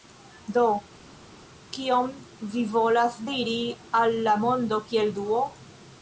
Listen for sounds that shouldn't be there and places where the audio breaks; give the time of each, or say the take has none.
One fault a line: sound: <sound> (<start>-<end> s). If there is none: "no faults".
no faults